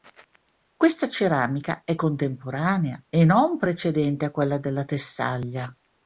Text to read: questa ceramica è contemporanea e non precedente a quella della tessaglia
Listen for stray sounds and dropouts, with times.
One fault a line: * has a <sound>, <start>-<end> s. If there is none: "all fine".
all fine